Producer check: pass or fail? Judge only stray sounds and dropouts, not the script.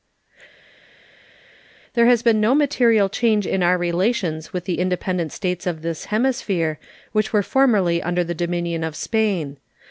pass